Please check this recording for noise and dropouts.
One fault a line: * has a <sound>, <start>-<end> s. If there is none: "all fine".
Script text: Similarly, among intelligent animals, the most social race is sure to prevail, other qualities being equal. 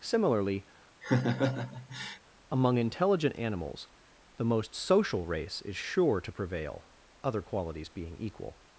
* has a laugh, 1.0-2.2 s